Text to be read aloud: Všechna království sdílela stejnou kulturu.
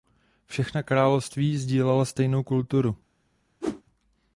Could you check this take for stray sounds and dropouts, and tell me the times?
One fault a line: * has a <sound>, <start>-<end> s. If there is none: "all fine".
* has a whoosh, 3.6-3.8 s